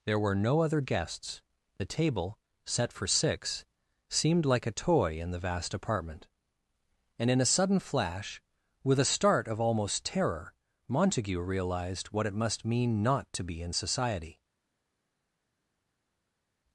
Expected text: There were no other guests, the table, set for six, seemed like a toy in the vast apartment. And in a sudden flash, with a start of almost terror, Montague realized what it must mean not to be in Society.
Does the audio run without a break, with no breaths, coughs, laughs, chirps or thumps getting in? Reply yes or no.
yes